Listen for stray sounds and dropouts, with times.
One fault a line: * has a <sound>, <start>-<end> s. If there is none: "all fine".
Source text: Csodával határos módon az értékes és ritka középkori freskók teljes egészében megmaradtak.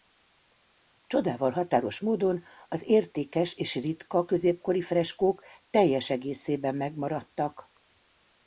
all fine